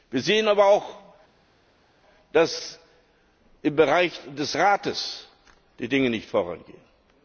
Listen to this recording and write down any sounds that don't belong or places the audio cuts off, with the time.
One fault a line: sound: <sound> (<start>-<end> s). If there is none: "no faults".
no faults